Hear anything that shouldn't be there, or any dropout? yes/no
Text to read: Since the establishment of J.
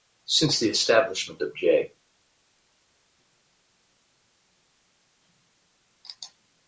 no